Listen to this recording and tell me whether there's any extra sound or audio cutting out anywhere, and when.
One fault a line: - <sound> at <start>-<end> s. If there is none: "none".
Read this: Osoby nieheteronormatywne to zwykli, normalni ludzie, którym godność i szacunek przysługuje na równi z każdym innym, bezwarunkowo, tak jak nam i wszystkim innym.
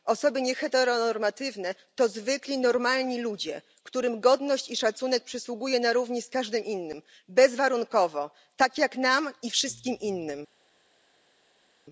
none